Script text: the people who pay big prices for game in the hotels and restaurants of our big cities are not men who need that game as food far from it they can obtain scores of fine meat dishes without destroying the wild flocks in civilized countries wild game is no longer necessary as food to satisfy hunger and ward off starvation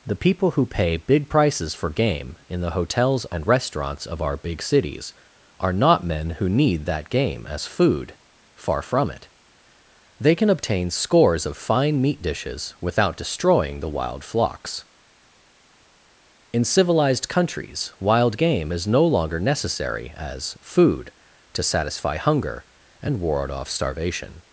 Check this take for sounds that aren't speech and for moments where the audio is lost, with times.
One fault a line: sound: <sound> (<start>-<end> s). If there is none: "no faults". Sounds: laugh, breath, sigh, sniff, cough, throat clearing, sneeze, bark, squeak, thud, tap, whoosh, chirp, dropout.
no faults